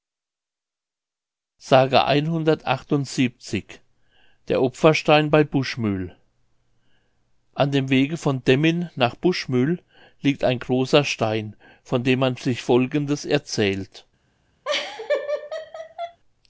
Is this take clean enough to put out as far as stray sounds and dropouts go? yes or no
no